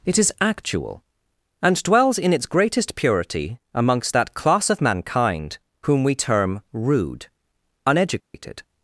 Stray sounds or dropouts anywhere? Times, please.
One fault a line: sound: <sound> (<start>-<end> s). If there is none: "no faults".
sound: dropout (8.2-8.3 s)